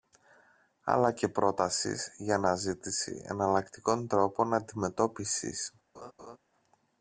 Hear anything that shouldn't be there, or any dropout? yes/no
yes